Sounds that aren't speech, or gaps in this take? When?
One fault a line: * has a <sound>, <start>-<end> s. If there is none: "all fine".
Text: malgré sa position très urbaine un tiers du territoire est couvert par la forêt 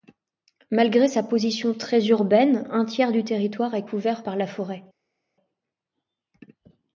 all fine